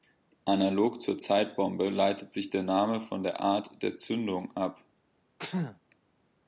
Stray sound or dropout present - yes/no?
yes